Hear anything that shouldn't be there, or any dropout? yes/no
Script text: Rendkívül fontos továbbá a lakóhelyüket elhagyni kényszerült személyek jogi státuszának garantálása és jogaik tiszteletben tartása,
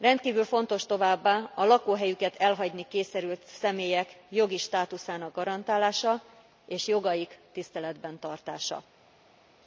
no